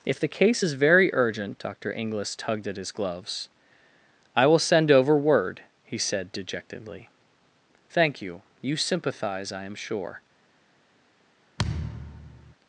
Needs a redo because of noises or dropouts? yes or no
yes